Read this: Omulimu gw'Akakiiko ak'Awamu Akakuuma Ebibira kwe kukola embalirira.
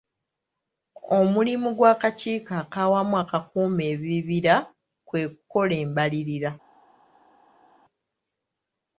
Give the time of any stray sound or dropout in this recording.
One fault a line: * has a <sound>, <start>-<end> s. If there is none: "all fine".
all fine